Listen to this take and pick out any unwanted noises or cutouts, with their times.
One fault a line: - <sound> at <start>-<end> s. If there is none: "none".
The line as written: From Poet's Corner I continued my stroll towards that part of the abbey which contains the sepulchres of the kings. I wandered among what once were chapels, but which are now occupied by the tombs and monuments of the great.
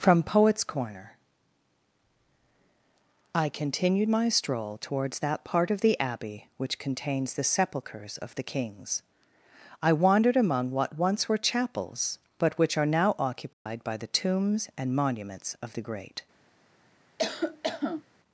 - dropout at 13.5-13.7 s
- cough at 17.2-18.0 s